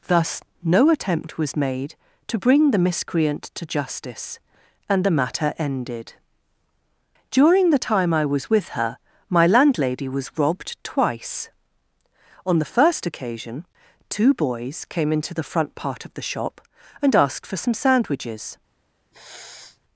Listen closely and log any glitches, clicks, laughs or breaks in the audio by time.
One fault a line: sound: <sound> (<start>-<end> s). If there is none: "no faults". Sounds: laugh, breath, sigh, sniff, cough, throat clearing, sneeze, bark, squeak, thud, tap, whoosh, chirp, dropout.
sound: sniff (19.1-19.8 s)